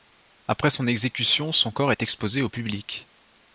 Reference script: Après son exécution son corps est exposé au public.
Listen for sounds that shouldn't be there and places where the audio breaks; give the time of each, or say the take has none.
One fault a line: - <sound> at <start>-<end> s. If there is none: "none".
none